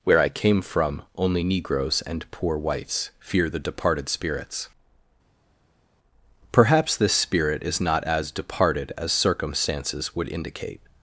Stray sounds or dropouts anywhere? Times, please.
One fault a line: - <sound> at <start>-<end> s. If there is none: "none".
none